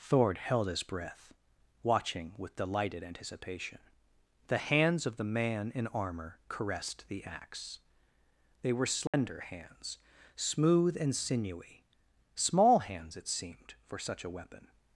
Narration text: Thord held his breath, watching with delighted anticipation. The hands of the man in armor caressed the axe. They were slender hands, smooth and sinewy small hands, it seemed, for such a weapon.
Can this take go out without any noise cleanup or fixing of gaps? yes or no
no